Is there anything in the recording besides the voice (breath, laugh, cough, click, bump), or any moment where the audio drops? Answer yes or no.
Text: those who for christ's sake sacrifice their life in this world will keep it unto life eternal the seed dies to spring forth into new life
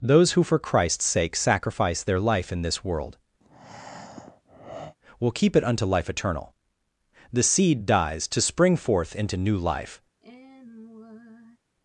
yes